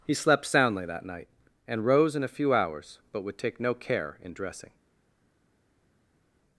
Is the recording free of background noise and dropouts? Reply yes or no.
yes